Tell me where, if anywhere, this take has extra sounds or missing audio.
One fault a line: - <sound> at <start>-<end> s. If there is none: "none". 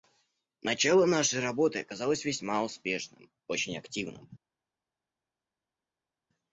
none